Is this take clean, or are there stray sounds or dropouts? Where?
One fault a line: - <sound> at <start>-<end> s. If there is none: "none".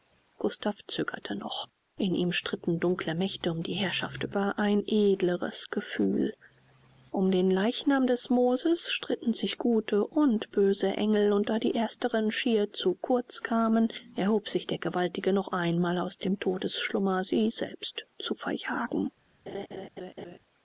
- laugh at 19.5-20.4 s